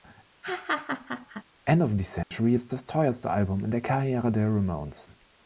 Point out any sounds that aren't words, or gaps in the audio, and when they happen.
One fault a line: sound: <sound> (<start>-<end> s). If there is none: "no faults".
sound: laugh (0.4-1.4 s)
sound: dropout (2.2-2.3 s)